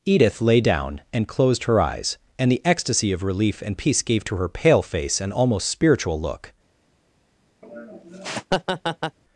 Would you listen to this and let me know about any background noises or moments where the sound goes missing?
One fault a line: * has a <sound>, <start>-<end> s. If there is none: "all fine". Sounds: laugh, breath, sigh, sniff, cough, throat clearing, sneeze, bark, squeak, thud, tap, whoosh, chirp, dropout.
* has a laugh, 7.6-9.2 s